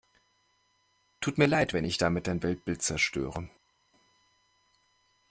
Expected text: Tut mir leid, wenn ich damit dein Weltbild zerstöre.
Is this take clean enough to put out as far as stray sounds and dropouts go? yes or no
yes